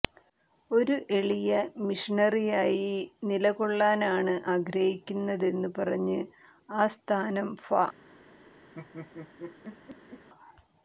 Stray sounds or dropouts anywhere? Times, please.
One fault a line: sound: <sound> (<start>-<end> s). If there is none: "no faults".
sound: laugh (8.7-10.3 s)